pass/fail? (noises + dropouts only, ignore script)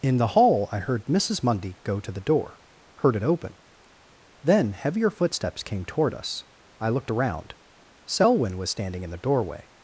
pass